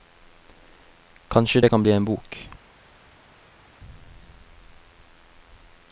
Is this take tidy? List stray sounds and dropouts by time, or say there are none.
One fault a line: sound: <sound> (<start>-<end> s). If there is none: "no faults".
no faults